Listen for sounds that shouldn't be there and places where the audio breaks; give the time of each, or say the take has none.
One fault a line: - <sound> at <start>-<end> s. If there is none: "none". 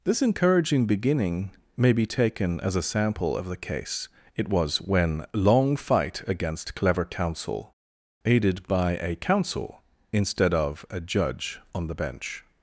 none